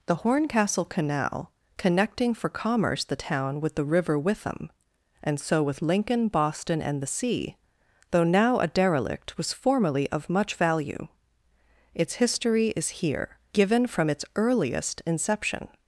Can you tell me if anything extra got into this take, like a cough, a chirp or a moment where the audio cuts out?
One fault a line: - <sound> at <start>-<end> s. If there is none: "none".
none